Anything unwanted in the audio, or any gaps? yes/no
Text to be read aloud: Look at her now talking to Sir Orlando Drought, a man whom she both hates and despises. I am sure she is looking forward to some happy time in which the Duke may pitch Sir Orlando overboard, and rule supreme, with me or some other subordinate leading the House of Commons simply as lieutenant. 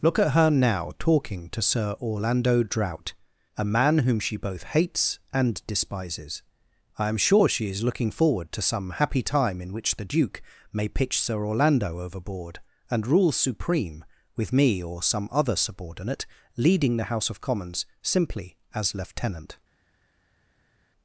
no